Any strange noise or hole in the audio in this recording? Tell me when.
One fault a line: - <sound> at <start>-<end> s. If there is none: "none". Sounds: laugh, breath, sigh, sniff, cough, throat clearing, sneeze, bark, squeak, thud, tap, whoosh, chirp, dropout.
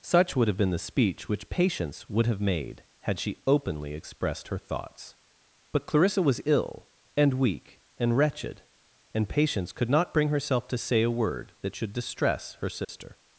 - dropout at 12.8-12.9 s